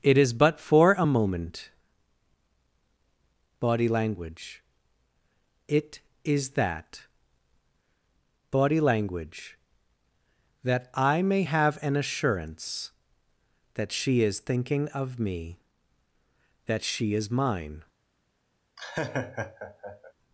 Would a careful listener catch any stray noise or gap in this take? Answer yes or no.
yes